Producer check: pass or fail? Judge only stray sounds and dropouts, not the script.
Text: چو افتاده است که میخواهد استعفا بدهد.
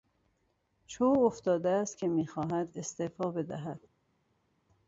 pass